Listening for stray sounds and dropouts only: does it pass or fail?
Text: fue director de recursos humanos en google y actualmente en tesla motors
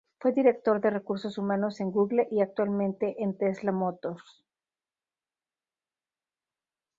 pass